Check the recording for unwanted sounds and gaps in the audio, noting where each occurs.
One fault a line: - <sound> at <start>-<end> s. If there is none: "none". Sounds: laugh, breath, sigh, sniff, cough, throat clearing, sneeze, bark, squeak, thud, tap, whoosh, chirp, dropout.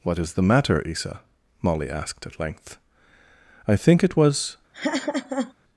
- laugh at 4.7-5.5 s